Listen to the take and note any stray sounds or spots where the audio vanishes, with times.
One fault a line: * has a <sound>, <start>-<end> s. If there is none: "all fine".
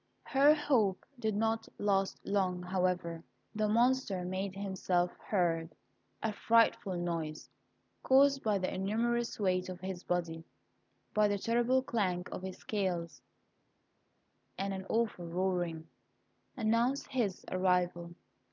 all fine